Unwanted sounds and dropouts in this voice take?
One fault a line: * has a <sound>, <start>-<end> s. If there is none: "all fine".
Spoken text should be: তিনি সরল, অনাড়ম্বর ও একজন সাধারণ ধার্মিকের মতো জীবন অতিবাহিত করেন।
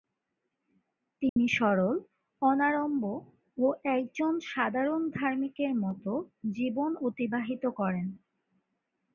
* has a dropout, 1.3-1.4 s